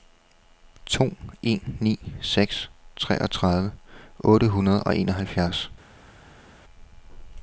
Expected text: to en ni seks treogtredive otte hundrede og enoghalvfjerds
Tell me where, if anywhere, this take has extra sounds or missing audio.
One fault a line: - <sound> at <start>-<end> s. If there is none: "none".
none